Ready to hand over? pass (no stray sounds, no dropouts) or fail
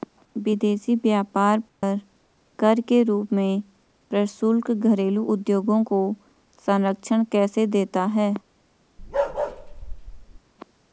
fail